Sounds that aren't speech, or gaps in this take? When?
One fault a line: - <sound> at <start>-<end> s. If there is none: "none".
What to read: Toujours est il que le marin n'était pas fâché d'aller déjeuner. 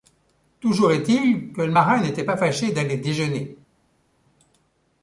none